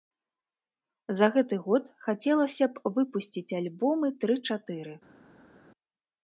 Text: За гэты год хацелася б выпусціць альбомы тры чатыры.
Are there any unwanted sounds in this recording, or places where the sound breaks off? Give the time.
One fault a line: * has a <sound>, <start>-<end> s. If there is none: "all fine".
all fine